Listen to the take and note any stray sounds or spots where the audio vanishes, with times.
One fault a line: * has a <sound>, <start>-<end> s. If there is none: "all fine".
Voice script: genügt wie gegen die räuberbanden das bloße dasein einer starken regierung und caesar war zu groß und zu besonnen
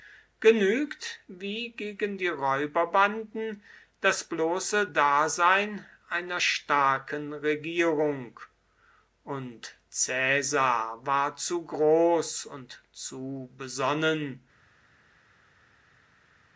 all fine